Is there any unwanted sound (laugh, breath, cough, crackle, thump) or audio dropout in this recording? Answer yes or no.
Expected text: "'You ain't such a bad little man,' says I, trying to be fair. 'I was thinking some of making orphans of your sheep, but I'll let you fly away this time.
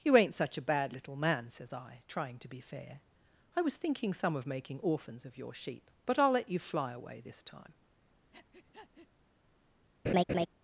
yes